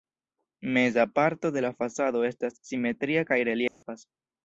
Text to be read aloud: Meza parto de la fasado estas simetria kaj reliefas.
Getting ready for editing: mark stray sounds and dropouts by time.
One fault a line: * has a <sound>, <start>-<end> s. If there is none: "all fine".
* has a dropout, 3.7-3.8 s